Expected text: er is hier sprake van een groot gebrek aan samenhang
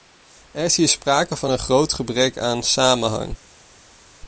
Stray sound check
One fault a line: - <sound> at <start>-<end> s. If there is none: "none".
none